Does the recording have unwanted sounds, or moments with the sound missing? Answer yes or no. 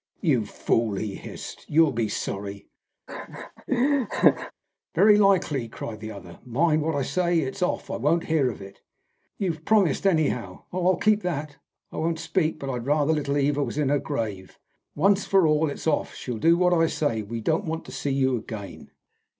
yes